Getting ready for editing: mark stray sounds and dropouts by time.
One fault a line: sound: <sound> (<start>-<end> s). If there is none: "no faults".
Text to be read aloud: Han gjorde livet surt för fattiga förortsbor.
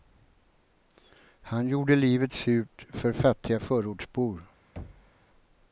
sound: thud (4.8-5.1 s)